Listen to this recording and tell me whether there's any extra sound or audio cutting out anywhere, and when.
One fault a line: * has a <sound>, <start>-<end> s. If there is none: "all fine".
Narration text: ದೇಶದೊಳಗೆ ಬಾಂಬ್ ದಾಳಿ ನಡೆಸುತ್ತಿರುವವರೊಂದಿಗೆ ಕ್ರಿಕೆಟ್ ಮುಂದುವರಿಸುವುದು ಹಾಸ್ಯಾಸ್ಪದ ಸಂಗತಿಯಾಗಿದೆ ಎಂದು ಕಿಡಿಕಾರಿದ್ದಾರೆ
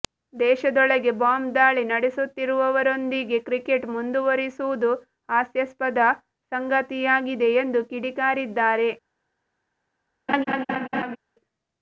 * has a laugh, 10.3-11.2 s